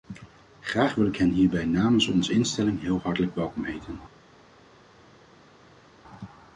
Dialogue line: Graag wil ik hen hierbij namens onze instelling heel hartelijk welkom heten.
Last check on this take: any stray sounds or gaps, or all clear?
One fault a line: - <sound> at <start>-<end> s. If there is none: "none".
none